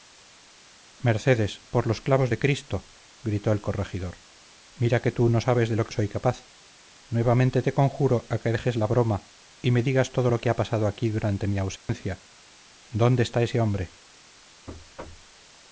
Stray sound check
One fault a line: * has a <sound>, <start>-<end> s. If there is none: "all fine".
* has a dropout, 11.8-11.9 s
* has a thud, 14.7-15.3 s